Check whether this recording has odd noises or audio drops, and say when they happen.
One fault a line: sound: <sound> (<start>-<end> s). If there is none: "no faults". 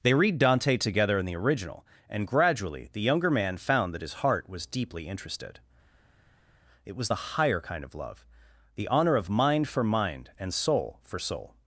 no faults